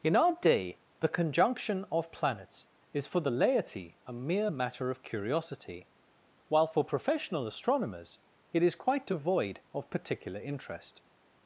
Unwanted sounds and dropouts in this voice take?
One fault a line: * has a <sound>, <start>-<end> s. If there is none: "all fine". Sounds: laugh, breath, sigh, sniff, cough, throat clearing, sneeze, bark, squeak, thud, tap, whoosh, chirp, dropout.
all fine